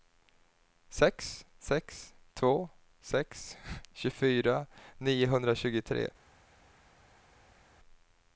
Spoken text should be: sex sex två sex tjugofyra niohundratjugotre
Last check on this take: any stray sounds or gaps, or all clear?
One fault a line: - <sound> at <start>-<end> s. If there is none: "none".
none